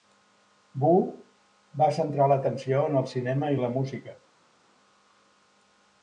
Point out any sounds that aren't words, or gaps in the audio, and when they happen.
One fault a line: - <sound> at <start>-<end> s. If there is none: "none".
none